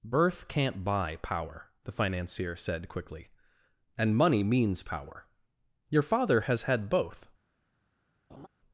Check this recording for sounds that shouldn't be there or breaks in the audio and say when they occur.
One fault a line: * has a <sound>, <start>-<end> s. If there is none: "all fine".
* has a laugh, 8.3-8.5 s